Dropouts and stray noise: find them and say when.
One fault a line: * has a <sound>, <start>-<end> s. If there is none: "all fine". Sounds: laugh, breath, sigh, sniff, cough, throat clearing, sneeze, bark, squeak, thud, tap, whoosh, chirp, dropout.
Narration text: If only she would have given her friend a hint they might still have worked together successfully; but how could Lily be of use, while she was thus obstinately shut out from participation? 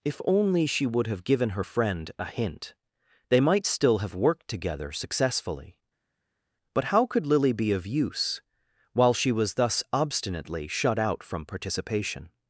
all fine